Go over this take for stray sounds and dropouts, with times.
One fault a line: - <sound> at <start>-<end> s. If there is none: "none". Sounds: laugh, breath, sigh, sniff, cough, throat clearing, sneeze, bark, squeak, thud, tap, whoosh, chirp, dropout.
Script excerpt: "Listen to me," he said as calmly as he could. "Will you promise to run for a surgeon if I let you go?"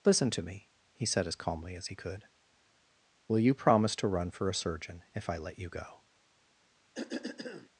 - cough at 6.9-7.7 s